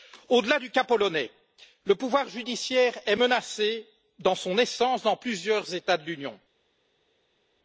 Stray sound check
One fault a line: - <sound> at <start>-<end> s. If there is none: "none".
none